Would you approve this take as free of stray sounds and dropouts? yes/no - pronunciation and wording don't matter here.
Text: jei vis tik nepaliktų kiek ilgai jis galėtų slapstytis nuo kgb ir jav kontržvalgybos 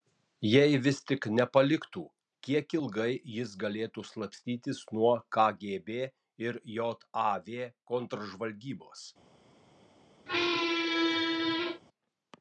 no